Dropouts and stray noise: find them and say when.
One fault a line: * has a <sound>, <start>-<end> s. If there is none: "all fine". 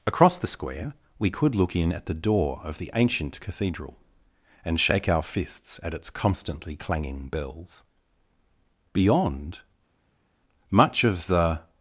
all fine